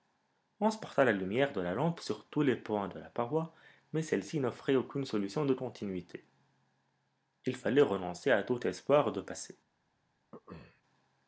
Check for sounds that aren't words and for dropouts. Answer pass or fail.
fail